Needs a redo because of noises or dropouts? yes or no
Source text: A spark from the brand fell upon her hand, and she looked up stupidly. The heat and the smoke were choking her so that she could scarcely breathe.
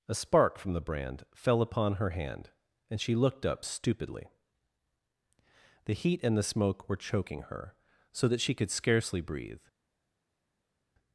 no